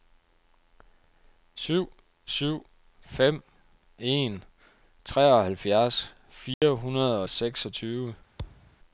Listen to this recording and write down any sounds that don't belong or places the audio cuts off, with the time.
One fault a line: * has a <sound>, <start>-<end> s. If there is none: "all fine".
* has a dropout, 6.5-6.6 s
* has a thud, 8.4-8.8 s